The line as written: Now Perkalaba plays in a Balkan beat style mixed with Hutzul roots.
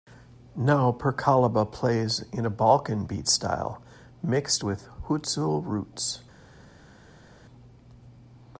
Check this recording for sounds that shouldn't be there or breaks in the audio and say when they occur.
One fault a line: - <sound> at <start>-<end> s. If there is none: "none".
none